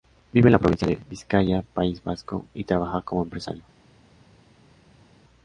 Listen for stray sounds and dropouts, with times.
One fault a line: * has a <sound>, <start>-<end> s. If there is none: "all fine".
all fine